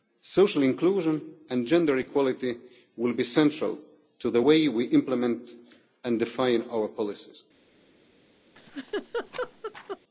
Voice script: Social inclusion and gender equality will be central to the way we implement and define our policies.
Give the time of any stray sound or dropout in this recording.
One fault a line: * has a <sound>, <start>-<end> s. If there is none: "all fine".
* has a laugh, 8.6-10.0 s